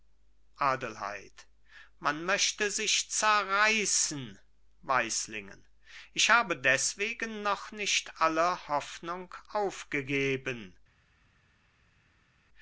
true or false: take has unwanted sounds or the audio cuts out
false